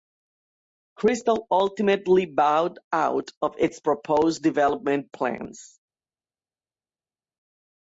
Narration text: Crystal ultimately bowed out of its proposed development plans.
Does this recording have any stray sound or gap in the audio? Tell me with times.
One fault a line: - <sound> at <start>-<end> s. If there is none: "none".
none